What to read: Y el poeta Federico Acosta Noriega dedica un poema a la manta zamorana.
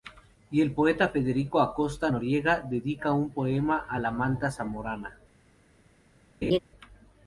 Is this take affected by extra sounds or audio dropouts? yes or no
yes